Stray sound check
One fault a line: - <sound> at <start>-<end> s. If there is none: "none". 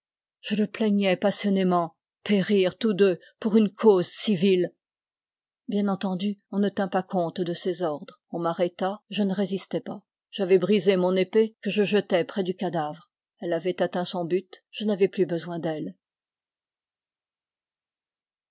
none